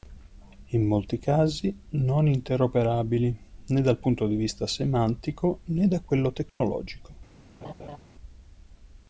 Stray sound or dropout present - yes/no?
yes